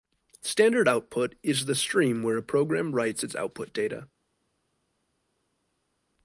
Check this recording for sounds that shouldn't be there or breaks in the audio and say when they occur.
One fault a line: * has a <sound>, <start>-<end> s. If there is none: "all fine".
all fine